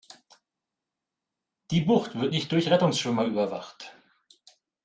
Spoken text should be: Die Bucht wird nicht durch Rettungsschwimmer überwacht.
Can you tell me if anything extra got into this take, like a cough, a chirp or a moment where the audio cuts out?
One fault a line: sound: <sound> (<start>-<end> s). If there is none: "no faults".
no faults